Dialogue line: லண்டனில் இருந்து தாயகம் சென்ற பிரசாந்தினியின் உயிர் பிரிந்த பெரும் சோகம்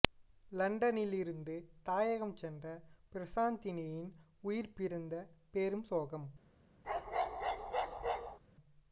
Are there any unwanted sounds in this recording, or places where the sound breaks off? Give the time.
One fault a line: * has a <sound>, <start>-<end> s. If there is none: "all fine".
* has a bark, 6.8-8.4 s